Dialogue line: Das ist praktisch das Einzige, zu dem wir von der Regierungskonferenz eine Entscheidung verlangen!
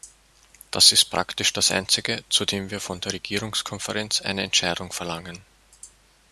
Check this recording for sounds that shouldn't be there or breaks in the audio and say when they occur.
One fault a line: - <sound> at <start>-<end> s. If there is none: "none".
none